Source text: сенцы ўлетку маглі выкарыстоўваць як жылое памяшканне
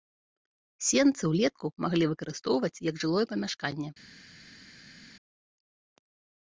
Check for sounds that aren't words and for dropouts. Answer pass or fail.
pass